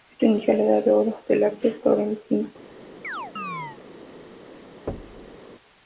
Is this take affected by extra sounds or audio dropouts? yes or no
yes